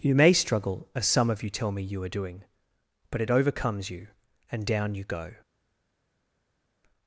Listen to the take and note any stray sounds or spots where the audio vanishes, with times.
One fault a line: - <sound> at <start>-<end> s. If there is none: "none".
none